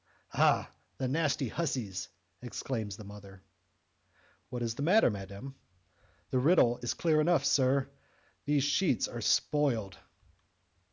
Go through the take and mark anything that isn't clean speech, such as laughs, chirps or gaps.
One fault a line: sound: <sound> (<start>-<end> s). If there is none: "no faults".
no faults